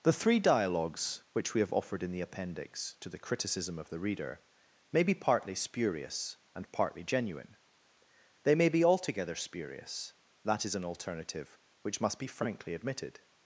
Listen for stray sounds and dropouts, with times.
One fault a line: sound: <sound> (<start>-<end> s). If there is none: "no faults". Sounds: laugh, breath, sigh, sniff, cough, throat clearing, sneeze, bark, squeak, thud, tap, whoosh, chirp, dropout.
no faults